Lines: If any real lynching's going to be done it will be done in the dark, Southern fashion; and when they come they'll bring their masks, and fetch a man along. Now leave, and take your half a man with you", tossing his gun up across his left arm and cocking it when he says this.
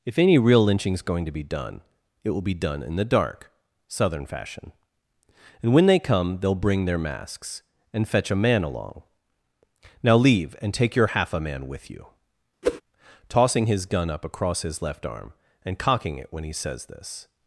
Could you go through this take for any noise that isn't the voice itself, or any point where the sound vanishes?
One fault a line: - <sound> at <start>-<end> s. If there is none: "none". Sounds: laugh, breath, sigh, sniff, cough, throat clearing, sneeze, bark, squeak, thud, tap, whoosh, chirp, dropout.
- whoosh at 12.6-12.8 s